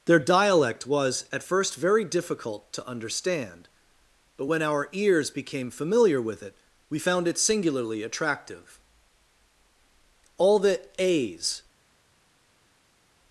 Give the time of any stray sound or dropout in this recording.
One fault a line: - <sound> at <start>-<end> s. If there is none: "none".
none